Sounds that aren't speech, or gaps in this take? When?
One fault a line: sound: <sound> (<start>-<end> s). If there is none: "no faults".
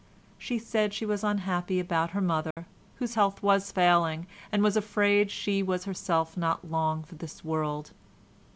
sound: dropout (2.5-2.6 s)